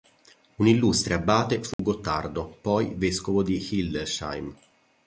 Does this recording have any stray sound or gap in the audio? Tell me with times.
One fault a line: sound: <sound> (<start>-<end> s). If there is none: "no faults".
sound: dropout (1.7-1.8 s)